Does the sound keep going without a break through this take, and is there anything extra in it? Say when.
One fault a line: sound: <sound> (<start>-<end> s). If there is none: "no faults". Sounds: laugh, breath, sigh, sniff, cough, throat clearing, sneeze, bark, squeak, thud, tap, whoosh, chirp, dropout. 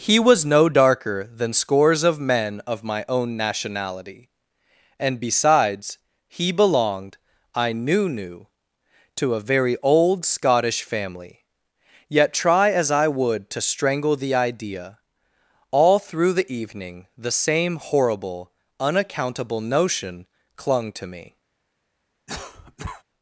sound: cough (22.3-23.0 s)